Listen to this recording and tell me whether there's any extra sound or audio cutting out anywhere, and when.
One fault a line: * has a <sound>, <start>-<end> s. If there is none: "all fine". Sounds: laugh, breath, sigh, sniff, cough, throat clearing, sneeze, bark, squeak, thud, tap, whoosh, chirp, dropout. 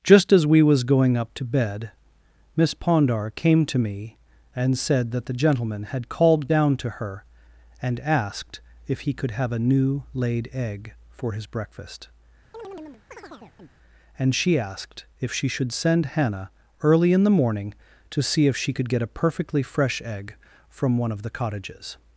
* has a chirp, 12.5-13.7 s